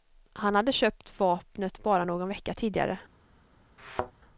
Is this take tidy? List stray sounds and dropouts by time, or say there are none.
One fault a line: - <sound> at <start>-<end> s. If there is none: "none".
- thud at 3.8-4.1 s